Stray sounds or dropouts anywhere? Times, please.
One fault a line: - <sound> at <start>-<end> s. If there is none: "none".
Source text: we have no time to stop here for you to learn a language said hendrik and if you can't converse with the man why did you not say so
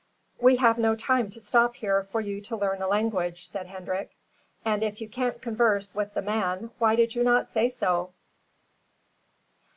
none